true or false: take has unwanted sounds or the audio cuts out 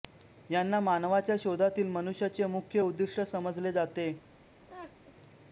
true